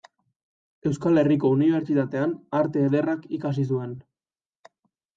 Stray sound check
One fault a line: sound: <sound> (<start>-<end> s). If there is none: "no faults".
no faults